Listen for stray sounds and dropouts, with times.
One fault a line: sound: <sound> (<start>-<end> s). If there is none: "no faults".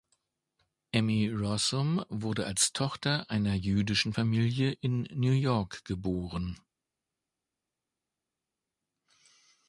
no faults